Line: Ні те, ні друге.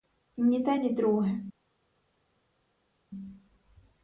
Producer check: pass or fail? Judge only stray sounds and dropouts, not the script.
pass